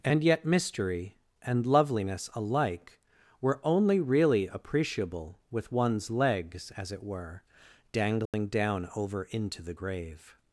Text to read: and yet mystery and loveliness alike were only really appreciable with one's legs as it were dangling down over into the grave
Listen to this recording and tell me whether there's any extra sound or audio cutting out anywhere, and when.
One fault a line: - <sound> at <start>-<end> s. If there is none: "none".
- dropout at 8.3-8.3 s